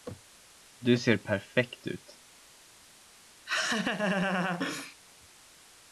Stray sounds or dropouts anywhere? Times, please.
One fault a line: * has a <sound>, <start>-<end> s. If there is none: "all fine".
* has a laugh, 3.5-5.0 s